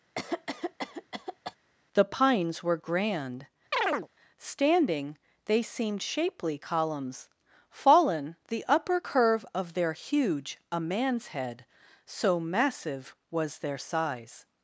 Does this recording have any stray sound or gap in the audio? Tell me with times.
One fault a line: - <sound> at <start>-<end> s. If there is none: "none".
- cough at 0.2-1.6 s
- chirp at 3.7-4.1 s